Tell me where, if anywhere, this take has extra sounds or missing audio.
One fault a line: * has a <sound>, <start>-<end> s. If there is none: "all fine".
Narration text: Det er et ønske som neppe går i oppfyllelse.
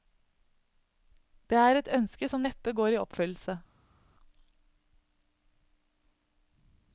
all fine